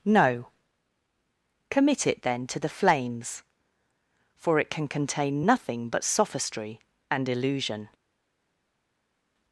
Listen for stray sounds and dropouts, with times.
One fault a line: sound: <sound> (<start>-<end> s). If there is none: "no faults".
no faults